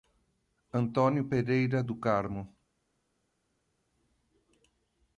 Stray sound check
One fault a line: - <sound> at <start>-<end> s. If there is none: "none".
none